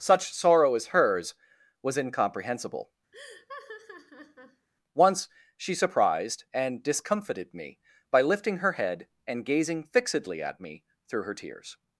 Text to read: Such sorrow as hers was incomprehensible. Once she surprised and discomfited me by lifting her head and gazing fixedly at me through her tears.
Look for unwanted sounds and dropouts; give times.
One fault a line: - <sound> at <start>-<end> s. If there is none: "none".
- laugh at 3.1-4.7 s